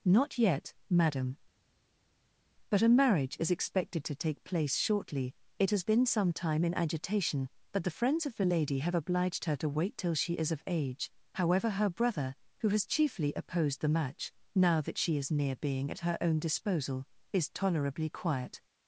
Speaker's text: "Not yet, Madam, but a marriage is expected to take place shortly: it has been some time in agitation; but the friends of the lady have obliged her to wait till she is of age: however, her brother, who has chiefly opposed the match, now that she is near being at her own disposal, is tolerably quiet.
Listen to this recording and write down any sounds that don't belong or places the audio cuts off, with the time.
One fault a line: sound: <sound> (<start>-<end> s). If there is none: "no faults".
no faults